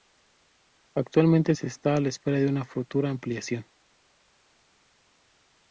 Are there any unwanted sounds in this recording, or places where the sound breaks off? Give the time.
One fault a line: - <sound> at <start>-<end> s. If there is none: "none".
none